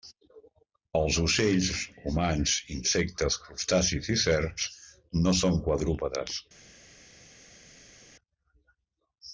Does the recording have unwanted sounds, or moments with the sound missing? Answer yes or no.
no